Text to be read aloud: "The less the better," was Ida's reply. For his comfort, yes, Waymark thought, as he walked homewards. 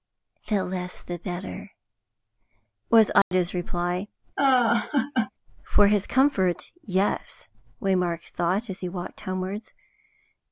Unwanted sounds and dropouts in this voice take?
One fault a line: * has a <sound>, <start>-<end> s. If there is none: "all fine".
* has a dropout, 3.2-3.3 s
* has a laugh, 4.4-5.3 s